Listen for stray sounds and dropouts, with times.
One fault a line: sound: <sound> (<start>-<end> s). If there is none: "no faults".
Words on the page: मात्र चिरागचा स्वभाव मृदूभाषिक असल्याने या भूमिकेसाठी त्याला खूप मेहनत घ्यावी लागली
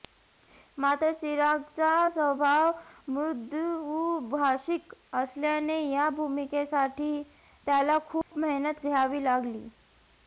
sound: dropout (8.2-8.3 s)